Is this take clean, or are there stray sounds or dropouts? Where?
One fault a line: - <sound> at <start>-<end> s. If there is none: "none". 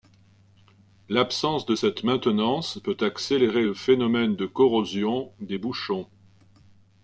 none